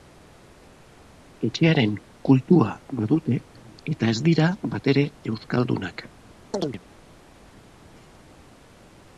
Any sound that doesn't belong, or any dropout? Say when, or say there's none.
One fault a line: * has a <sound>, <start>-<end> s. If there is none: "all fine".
* has a chirp, 6.5-6.8 s